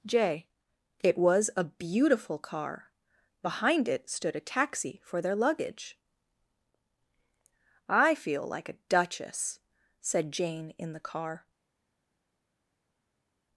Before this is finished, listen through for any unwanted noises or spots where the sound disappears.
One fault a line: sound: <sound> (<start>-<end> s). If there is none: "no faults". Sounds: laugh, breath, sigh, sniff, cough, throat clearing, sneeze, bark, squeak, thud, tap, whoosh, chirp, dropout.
no faults